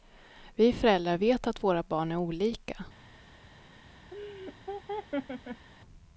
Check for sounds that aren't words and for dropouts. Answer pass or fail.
fail